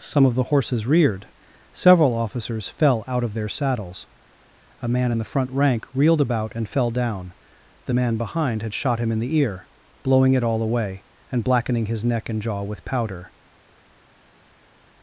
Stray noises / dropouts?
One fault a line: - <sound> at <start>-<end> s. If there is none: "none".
none